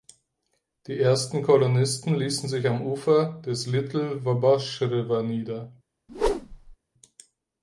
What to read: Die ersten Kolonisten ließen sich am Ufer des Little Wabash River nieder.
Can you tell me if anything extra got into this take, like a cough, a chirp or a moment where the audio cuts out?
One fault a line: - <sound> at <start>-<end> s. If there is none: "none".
- whoosh at 6.1-6.8 s